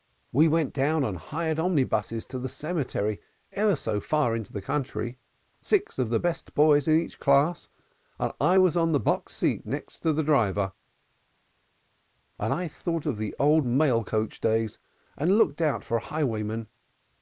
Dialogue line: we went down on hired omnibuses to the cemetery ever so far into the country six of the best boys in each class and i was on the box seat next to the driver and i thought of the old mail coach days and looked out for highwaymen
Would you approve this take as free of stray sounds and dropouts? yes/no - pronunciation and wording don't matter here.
yes